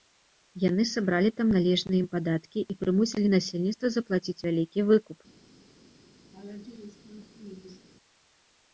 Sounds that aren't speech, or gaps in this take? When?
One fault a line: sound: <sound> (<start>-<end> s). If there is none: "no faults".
sound: laugh (6.3-7.9 s)